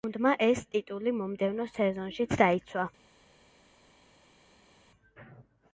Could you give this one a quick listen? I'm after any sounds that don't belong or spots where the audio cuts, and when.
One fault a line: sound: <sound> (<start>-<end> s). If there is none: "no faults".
no faults